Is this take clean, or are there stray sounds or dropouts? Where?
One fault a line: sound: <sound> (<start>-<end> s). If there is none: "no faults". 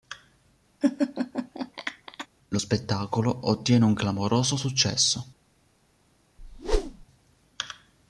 sound: laugh (0.8-2.3 s)
sound: whoosh (6.4-7.1 s)